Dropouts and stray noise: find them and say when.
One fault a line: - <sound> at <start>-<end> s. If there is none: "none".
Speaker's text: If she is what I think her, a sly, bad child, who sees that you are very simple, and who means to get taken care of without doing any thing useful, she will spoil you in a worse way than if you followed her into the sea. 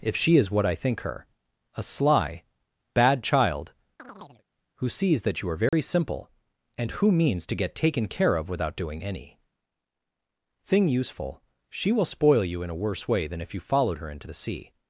- chirp at 4.0-4.4 s
- dropout at 5.7-5.7 s